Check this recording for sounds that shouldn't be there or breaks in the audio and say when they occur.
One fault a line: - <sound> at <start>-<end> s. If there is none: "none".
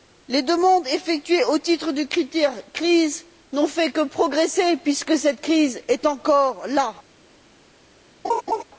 - laugh at 8.2-8.6 s